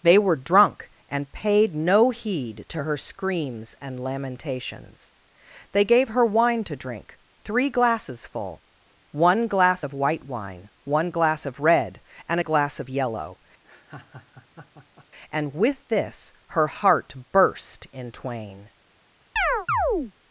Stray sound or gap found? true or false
true